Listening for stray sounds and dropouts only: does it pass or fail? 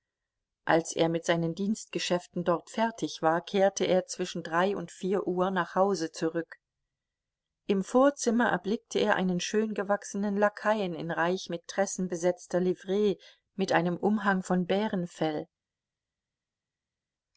pass